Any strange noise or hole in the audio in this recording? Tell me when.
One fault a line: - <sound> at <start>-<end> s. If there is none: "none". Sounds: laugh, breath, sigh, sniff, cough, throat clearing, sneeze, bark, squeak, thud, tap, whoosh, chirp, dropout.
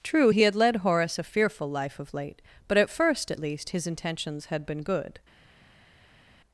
none